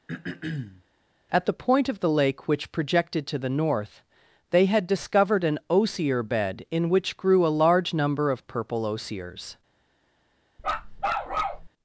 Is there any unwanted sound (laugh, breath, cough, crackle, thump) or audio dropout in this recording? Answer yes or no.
yes